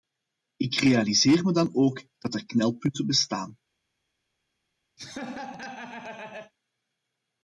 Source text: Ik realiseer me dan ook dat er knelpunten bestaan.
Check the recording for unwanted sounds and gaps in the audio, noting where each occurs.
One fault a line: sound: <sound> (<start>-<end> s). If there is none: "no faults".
sound: laugh (5.0-6.5 s)